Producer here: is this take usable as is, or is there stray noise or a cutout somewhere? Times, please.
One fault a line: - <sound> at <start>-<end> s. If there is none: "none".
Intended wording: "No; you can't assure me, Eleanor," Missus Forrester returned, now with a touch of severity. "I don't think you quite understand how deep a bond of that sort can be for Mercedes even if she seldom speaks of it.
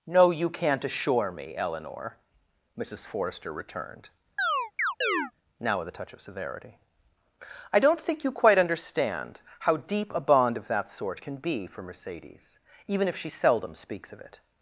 - chirp at 4.4-5.3 s